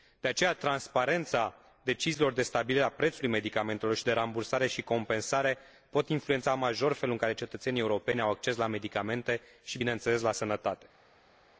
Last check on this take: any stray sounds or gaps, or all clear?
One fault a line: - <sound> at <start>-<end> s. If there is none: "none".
none